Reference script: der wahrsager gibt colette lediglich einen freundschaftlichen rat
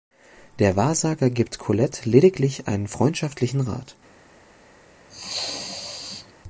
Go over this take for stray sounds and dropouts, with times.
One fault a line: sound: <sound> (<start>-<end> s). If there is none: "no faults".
sound: sneeze (5.1-6.3 s)